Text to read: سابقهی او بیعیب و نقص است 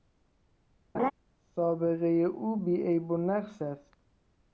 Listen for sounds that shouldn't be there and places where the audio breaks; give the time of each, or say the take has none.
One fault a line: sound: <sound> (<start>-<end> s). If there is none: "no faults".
sound: laugh (0.9-1.1 s)